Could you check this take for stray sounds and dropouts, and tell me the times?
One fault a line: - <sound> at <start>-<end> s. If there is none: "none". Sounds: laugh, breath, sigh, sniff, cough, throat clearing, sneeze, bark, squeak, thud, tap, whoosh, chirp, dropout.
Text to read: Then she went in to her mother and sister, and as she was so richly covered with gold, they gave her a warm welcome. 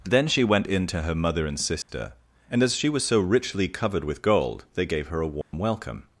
- dropout at 1.8-1.9 s
- dropout at 5.4-5.5 s